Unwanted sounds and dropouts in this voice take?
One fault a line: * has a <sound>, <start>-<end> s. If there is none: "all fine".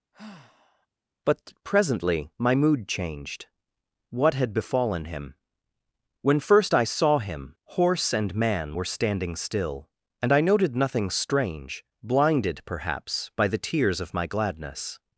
* has a sigh, 0.1-0.9 s